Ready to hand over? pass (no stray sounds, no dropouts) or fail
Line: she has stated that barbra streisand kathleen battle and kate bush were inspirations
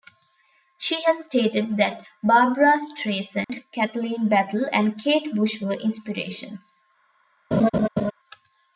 fail